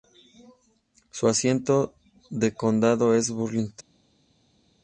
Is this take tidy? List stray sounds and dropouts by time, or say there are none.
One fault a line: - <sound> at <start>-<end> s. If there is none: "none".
none